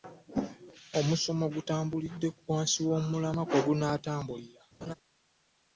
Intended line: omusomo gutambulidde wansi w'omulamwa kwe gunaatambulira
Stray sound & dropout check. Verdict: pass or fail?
fail